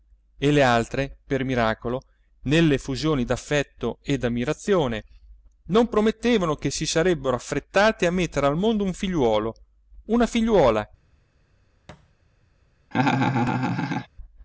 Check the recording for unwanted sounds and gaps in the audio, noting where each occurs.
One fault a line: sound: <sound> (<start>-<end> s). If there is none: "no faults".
sound: thud (11.9-12.1 s)
sound: laugh (12.9-14.1 s)